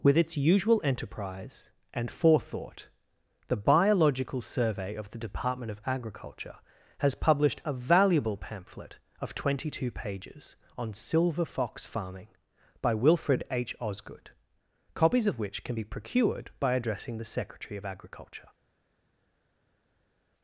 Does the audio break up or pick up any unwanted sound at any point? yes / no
no